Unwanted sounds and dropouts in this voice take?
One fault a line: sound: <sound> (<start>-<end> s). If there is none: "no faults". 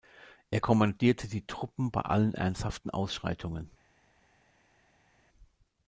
no faults